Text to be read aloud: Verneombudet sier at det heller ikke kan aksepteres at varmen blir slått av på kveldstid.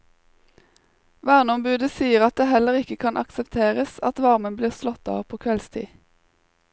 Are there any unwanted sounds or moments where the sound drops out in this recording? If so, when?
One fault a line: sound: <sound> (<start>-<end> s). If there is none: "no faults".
no faults